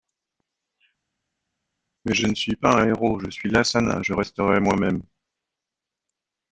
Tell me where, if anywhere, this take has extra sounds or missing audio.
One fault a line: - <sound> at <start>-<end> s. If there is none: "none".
none